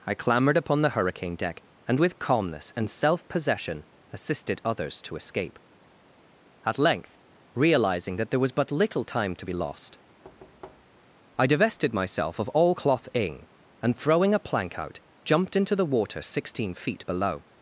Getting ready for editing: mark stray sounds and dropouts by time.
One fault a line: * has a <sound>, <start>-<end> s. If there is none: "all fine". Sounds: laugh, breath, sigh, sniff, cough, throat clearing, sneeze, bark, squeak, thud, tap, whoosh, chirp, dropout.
* has a thud, 10.2-11.1 s